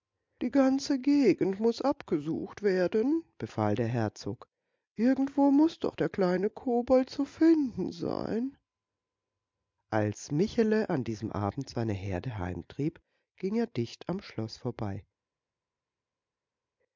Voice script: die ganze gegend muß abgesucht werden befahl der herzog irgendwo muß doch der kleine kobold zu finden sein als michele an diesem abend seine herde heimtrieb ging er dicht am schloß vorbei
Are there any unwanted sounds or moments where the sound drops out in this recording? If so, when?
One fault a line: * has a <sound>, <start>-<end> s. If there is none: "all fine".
all fine